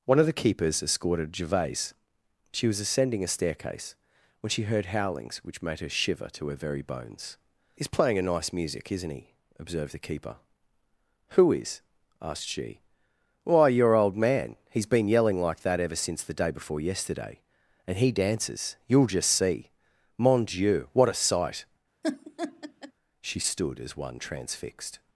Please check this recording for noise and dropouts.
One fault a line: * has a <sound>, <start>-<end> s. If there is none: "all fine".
* has a laugh, 22.0-22.9 s